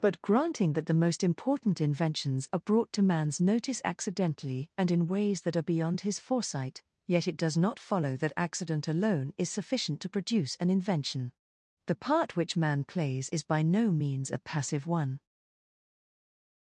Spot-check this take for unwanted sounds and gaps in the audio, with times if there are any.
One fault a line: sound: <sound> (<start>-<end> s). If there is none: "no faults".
no faults